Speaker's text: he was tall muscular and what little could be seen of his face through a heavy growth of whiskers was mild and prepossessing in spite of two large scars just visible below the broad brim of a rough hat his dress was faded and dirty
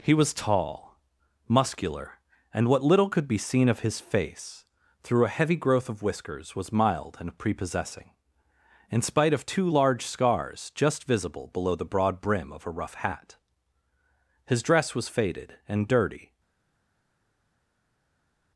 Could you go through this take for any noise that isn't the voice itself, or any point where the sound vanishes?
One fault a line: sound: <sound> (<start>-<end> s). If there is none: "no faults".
no faults